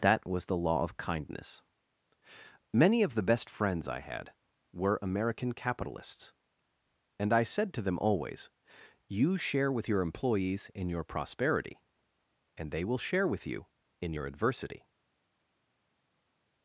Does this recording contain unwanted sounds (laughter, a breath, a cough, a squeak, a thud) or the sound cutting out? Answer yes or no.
no